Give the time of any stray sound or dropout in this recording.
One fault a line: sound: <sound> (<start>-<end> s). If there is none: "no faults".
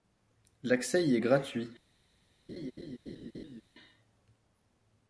sound: laugh (2.5-3.6 s)